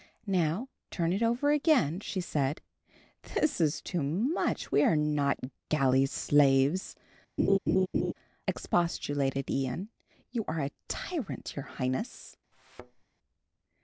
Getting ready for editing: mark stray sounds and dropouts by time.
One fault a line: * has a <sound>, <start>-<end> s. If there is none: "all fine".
* has a laugh, 7.4-8.1 s
* has a thud, 12.5-13.0 s